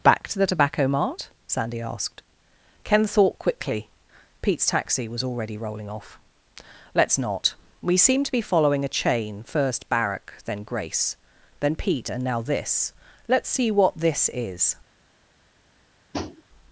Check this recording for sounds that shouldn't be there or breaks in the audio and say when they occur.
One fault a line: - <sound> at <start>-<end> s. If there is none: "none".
- tap at 16.1-16.4 s